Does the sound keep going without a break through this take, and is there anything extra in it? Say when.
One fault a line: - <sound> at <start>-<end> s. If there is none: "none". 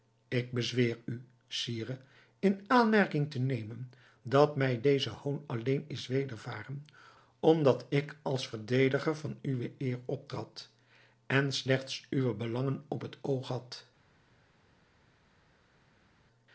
none